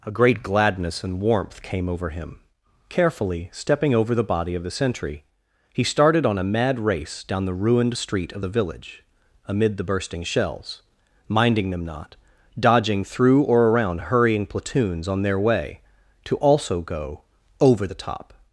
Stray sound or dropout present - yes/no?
no